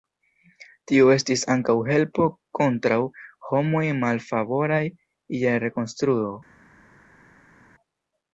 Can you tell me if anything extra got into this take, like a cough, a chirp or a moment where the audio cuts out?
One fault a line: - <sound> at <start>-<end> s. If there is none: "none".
none